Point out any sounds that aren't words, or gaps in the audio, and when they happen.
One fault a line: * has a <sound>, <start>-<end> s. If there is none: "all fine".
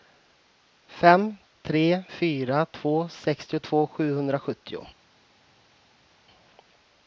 all fine